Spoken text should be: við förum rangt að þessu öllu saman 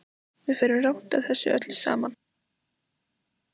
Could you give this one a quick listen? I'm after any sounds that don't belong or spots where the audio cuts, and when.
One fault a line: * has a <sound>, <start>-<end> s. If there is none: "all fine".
all fine